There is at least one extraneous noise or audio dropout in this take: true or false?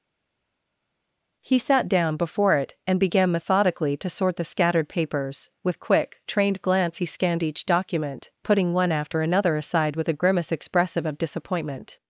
false